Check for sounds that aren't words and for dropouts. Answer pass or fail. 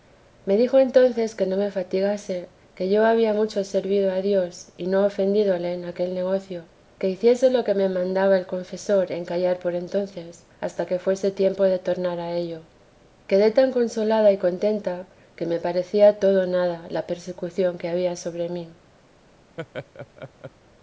fail